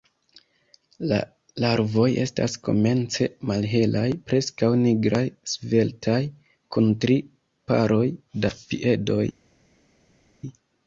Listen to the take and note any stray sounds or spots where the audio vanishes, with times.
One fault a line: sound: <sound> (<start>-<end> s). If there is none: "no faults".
no faults